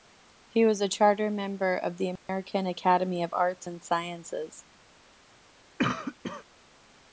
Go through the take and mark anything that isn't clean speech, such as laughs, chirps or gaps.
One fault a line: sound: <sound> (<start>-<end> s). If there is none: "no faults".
sound: dropout (2.2-2.3 s)
sound: cough (5.8-6.4 s)